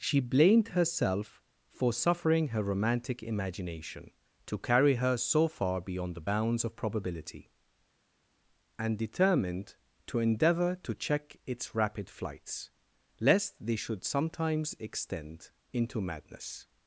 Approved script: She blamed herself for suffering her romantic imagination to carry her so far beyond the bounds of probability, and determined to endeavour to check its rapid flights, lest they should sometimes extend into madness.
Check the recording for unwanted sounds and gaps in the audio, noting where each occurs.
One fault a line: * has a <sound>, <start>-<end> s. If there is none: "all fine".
all fine